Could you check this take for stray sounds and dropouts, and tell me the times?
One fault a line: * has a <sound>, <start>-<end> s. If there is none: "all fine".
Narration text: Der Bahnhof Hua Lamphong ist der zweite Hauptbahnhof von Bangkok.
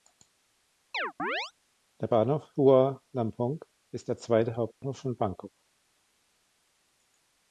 * has a chirp, 0.9-1.5 s
* has a dropout, 4.7-4.8 s